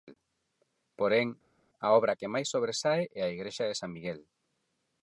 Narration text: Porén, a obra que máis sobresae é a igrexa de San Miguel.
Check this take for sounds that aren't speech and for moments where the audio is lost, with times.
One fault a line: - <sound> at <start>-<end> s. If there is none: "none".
none